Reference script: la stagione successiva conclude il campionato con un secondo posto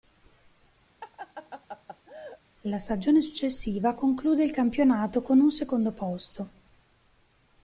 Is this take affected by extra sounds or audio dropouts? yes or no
yes